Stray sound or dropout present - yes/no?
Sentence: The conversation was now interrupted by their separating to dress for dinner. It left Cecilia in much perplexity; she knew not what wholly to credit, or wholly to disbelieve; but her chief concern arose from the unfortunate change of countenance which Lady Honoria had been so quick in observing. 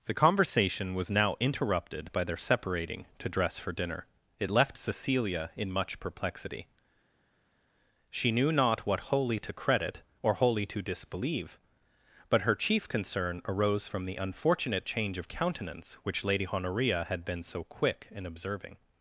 no